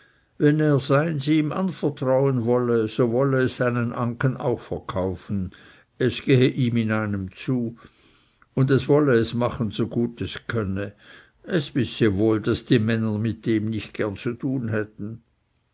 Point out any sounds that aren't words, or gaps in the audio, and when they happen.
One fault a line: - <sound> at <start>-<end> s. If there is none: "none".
none